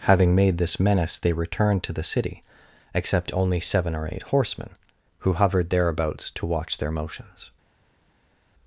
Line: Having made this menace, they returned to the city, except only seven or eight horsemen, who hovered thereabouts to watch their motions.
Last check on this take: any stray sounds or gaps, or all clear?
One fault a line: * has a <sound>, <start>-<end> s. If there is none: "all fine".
all fine